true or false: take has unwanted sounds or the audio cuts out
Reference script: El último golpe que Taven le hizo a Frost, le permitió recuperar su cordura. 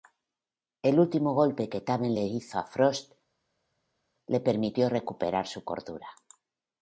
false